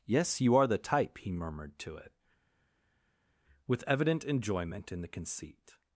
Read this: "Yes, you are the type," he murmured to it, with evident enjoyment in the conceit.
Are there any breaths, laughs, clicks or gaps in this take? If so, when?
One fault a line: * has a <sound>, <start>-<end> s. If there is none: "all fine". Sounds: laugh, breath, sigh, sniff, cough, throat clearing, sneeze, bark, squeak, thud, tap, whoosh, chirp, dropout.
all fine